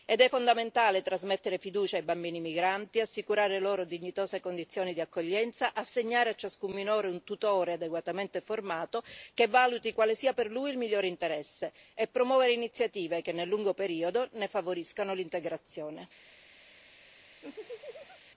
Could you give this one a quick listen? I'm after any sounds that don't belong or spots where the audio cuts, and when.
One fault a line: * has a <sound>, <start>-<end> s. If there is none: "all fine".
* has a laugh, 17.4-18.2 s